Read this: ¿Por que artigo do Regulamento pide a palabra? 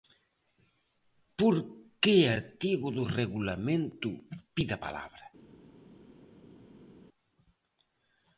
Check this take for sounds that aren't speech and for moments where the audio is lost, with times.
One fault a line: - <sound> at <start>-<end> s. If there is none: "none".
none